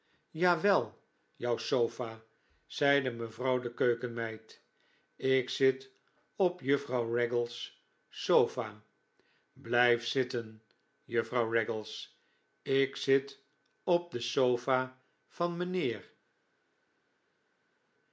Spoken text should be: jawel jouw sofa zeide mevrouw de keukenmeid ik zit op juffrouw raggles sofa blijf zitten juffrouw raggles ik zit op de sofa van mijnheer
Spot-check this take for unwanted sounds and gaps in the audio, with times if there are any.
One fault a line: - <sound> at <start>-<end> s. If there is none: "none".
none